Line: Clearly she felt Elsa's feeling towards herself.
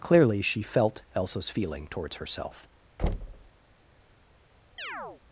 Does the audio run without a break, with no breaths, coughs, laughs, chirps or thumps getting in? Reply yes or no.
no